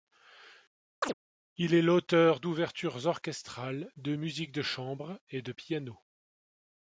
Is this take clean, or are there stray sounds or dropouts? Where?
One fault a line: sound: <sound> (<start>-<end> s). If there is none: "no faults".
sound: chirp (1.0-1.1 s)